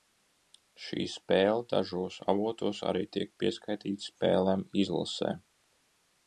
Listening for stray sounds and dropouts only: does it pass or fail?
pass